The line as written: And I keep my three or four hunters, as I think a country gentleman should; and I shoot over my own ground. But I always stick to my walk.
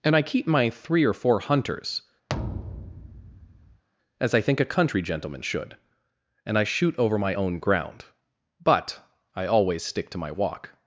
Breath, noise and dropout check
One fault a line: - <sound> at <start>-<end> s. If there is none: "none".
- thud at 2.3-3.8 s